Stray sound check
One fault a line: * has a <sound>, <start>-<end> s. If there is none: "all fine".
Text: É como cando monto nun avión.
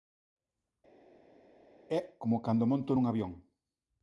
all fine